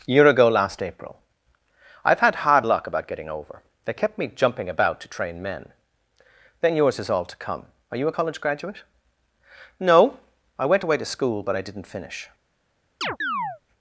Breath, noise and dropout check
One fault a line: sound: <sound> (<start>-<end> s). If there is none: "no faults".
sound: chirp (13.0-13.6 s)